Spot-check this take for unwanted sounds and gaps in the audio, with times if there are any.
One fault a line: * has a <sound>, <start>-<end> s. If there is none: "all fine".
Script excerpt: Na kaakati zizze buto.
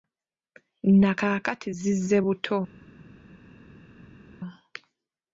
all fine